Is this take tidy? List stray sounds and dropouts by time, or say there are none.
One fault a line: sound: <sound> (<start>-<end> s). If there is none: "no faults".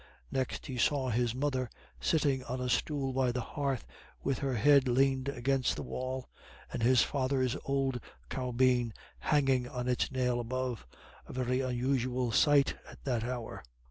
no faults